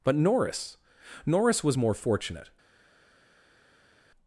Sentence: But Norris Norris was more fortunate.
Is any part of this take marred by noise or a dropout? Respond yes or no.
no